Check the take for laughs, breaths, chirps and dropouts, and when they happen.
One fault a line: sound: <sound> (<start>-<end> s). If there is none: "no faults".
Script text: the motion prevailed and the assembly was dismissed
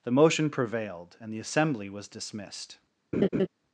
sound: laugh (3.1-3.5 s)